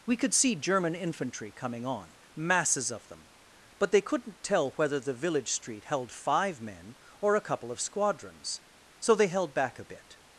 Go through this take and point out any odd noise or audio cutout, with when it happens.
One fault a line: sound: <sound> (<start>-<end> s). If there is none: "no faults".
no faults